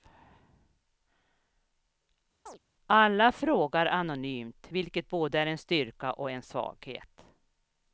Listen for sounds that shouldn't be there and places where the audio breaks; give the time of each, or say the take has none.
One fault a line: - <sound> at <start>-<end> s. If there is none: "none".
- chirp at 2.5-2.6 s